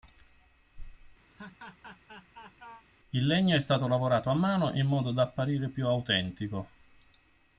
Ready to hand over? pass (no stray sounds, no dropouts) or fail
fail